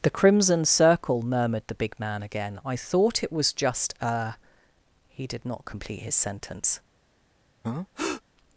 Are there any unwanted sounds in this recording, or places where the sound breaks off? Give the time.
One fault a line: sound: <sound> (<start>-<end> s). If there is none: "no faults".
sound: breath (7.6-8.2 s)